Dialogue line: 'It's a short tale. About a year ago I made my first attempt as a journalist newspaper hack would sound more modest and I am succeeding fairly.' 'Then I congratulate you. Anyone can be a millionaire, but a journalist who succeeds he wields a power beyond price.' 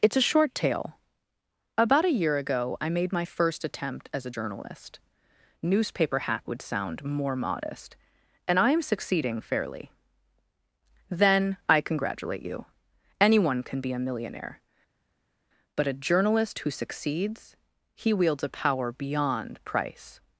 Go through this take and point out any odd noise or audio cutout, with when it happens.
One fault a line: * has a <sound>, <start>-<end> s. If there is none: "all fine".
all fine